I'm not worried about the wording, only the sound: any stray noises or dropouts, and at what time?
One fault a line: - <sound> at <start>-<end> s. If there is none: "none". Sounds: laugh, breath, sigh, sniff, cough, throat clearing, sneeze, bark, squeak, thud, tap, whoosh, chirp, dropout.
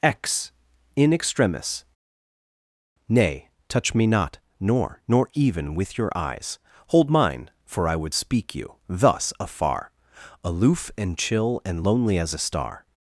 none